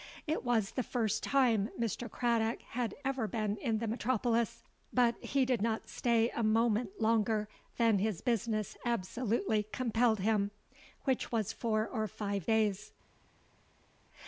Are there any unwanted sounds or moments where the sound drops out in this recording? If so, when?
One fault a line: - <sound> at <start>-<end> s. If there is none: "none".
none